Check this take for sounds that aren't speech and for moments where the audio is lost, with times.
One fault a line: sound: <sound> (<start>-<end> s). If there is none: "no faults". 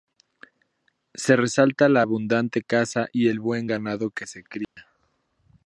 sound: dropout (4.6-4.8 s)